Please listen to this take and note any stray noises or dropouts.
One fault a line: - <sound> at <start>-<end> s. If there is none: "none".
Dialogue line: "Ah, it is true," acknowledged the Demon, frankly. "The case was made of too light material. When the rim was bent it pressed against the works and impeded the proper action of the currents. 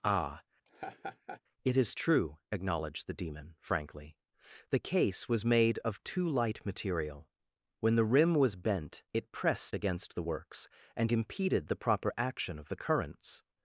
- laugh at 0.6-1.4 s